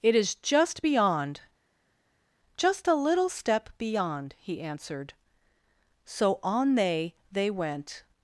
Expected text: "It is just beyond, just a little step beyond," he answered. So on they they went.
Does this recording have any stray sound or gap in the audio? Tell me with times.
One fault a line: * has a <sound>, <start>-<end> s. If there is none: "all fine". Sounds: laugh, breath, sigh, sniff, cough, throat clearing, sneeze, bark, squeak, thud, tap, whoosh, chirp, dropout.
all fine